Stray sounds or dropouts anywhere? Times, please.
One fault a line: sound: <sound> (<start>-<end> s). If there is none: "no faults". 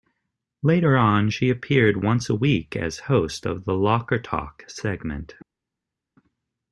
no faults